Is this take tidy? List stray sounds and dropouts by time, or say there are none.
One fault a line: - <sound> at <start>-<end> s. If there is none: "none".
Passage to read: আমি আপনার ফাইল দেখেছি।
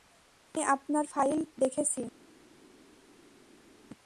none